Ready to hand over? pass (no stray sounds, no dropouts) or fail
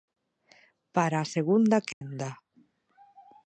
fail